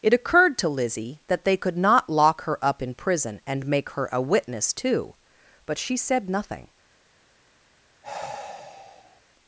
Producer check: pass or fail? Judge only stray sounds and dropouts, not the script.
fail